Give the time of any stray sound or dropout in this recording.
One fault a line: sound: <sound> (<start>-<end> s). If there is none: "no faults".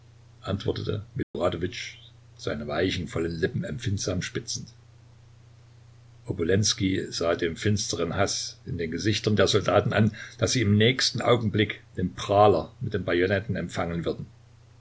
sound: dropout (1.2-1.3 s)